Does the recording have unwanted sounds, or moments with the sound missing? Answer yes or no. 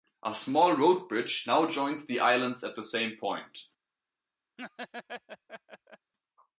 yes